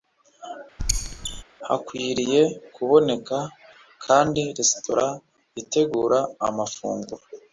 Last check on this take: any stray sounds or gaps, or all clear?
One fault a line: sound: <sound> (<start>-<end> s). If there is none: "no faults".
sound: squeak (0.8-1.4 s)